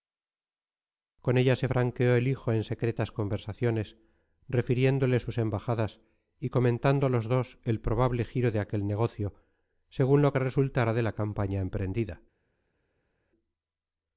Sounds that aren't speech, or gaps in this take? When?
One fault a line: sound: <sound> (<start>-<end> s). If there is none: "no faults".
no faults